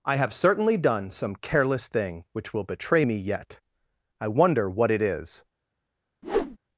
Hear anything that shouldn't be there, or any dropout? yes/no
yes